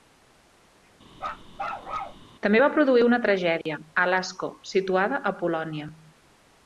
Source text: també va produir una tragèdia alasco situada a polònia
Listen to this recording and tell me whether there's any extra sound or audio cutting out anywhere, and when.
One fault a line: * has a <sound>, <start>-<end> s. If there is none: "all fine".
* has a bark, 1.2-2.2 s
* has a dropout, 3.6-3.7 s